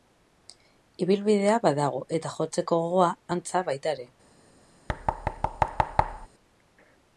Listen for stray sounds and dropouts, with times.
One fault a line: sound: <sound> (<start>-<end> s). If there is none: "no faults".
sound: thud (4.9-6.3 s)